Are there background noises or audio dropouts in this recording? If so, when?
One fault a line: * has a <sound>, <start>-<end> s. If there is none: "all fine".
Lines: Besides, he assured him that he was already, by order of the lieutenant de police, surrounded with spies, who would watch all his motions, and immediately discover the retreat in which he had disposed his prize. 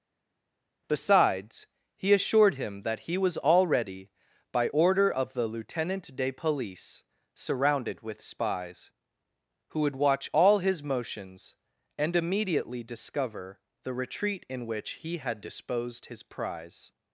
all fine